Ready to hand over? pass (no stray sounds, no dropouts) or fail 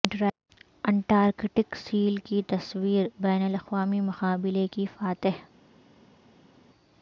pass